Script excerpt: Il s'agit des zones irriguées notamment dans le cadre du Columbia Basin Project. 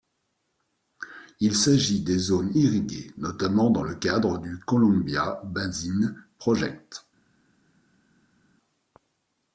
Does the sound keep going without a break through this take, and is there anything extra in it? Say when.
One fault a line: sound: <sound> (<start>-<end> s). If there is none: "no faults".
no faults